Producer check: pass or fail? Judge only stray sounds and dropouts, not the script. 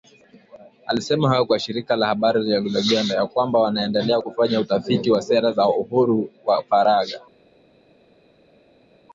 pass